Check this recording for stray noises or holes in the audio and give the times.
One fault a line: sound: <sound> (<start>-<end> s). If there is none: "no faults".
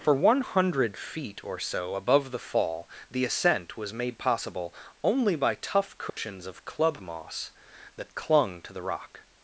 sound: dropout (6.1-6.2 s)